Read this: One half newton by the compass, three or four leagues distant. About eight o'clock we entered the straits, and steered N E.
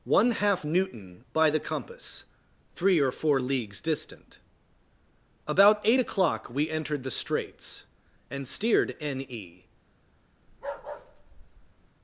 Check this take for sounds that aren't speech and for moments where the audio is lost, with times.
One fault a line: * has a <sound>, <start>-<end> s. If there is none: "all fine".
* has a bark, 10.5-11.9 s